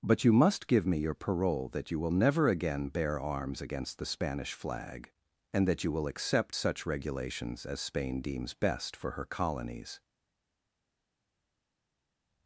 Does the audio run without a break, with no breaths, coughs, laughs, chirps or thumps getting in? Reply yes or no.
yes